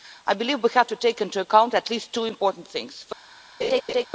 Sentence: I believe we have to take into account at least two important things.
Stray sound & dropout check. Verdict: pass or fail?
fail